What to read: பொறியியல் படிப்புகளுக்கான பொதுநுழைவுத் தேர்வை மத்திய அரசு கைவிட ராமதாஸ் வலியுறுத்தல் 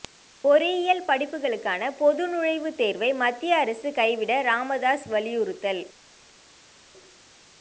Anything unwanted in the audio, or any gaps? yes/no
no